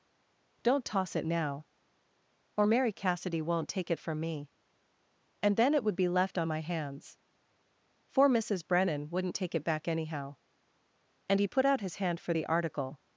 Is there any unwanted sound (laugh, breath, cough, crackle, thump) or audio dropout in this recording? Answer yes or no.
no